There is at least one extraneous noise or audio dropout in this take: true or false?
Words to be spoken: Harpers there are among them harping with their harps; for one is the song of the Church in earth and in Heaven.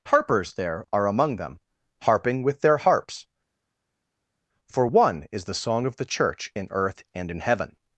false